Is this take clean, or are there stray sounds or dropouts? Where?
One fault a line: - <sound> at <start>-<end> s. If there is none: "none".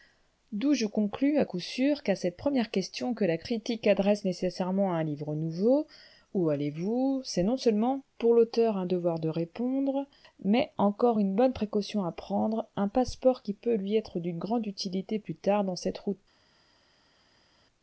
none